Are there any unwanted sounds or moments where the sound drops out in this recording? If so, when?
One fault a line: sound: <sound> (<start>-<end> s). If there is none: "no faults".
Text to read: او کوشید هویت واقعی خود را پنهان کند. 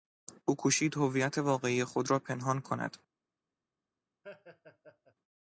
sound: laugh (4.2-5.1 s)